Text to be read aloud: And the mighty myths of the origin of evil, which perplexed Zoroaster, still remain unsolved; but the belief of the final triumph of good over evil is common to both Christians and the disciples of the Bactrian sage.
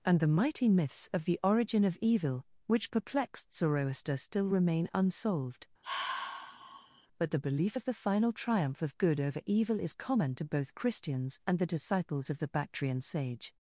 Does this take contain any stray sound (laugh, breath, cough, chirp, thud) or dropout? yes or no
yes